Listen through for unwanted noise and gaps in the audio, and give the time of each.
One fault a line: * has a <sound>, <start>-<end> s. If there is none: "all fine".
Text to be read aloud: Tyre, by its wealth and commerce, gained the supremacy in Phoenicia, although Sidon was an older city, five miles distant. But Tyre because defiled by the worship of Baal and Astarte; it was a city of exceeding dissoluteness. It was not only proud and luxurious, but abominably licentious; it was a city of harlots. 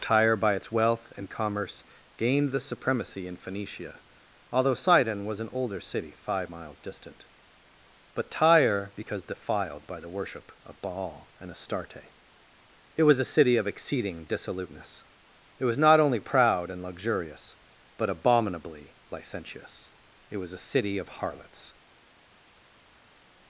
all fine